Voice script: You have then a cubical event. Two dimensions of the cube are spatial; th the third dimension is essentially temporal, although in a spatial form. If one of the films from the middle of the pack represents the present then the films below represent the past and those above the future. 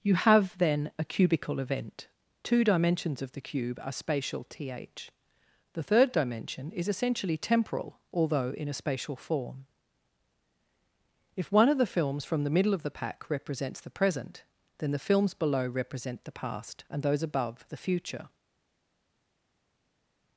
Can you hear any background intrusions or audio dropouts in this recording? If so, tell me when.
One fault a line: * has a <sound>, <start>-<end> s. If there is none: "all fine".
all fine